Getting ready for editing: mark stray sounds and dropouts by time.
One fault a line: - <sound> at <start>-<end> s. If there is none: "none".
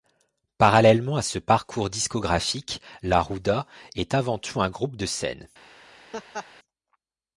- laugh at 6.1-6.5 s